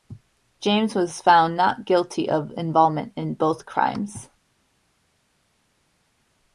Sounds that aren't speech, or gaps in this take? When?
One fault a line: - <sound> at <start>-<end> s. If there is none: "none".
none